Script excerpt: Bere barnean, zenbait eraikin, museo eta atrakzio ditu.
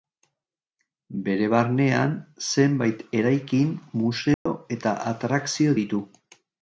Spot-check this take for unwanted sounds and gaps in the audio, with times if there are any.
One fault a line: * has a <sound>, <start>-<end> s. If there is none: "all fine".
* has a dropout, 4.3-4.5 s